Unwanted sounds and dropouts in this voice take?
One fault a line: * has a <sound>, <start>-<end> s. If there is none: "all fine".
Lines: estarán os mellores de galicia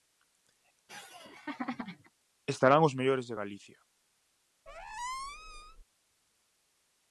* has a laugh, 0.9-2.1 s
* has a squeak, 4.7-5.8 s